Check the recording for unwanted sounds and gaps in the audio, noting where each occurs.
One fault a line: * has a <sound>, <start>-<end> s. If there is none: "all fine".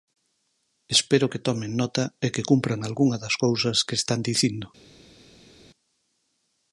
all fine